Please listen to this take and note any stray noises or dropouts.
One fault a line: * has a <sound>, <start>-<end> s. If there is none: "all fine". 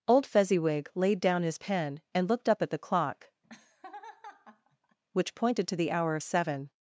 * has a laugh, 3.4-5.0 s